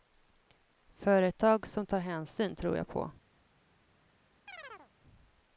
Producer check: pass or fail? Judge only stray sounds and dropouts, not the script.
fail